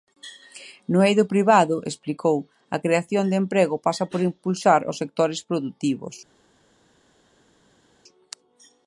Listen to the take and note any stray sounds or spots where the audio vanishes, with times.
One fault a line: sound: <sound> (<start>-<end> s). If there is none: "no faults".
no faults